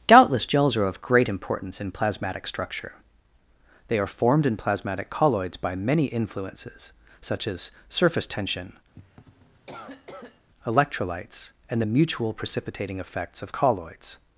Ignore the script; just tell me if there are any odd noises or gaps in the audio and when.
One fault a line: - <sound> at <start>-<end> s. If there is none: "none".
- cough at 8.9-10.5 s